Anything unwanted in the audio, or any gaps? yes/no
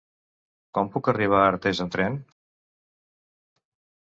no